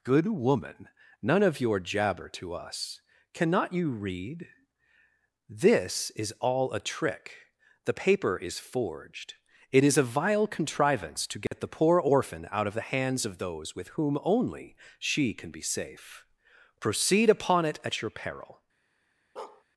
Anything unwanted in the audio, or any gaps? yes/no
yes